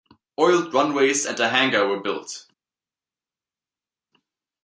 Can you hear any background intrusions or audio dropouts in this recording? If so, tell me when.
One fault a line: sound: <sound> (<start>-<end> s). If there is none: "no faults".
no faults